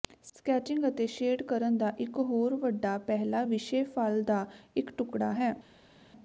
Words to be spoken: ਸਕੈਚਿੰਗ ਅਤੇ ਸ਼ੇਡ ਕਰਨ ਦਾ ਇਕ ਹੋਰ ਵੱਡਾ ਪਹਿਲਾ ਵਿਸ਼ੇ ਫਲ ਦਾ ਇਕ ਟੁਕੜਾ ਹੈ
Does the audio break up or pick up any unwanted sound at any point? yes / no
no